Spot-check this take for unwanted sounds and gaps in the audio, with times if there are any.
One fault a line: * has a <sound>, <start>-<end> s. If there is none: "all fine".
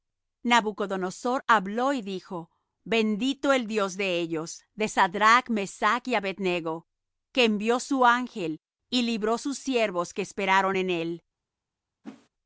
* has a whoosh, 12.0-12.3 s